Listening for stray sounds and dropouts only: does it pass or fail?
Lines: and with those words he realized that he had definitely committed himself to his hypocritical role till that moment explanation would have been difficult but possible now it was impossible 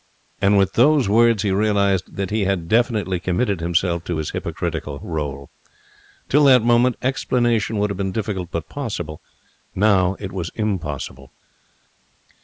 pass